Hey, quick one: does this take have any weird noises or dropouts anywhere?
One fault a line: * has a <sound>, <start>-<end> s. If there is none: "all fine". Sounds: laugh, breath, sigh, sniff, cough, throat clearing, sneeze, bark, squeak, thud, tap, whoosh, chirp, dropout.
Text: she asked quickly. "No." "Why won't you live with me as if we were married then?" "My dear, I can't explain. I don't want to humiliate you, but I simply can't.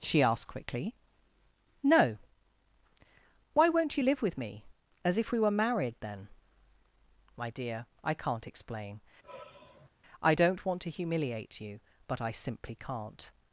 * has a sigh, 9.2-9.9 s